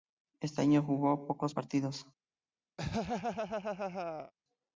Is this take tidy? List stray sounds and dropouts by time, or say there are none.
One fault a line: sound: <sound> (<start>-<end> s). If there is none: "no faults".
sound: laugh (2.8-4.3 s)